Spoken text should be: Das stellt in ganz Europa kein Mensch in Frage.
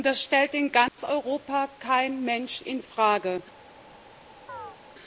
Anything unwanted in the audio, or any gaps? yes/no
yes